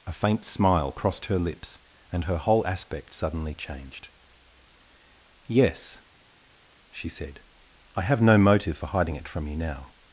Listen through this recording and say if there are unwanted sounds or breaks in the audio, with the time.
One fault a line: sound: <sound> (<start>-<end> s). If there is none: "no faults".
no faults